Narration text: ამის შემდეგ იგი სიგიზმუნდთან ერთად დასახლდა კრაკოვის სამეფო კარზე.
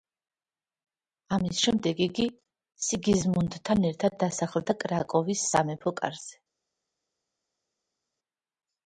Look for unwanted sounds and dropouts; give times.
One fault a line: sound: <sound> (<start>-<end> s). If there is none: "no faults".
no faults